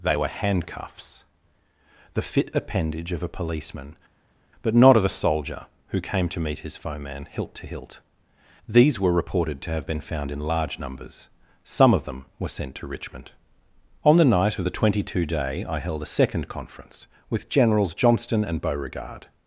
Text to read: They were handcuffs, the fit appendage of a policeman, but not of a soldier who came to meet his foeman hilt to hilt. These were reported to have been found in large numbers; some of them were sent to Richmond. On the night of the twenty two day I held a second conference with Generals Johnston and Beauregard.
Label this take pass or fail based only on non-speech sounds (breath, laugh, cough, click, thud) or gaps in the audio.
pass